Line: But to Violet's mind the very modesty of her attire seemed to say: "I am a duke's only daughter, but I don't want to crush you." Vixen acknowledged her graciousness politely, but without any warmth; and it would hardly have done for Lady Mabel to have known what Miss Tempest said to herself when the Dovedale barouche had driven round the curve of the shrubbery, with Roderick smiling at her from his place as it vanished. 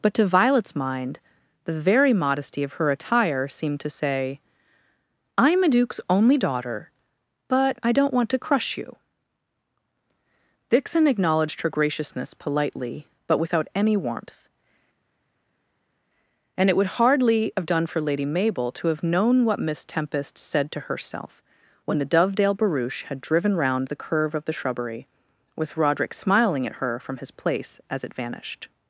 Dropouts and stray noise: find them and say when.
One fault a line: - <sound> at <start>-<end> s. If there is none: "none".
none